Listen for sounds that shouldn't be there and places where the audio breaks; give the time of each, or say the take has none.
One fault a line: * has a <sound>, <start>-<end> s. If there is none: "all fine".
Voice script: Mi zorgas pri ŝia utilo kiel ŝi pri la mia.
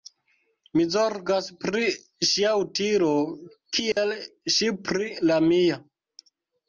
* has a dropout, 3.9-4.0 s